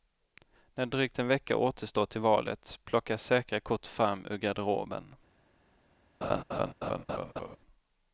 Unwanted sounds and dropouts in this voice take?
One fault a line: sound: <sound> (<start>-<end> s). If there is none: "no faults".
sound: laugh (6.2-7.6 s)